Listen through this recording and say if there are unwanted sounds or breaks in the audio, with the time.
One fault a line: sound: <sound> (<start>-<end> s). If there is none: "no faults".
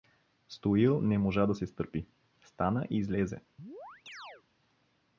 sound: chirp (3.6-4.4 s)